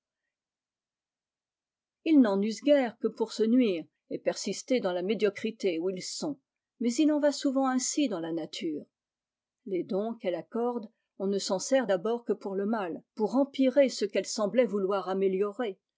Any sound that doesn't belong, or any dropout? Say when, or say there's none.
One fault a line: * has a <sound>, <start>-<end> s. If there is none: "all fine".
all fine